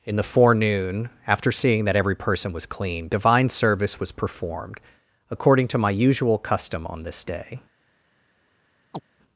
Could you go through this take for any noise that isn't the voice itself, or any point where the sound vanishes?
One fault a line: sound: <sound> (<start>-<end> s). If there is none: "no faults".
sound: chirp (8.9-9.0 s)